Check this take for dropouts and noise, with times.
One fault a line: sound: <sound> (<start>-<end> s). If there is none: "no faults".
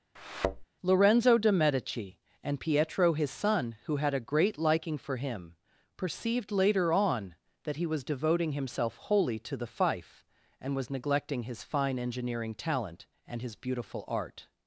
sound: thud (0.2-0.6 s)